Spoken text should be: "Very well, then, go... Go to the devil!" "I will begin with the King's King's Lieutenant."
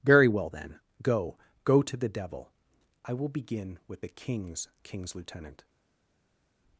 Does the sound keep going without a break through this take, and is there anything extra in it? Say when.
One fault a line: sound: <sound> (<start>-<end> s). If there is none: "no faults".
no faults